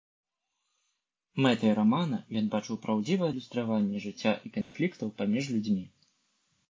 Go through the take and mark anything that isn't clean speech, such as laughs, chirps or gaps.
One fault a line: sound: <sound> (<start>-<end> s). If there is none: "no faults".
sound: dropout (4.6-4.7 s)